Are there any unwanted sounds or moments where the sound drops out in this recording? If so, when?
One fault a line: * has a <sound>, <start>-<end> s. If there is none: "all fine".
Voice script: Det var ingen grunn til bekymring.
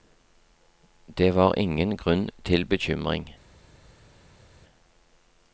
all fine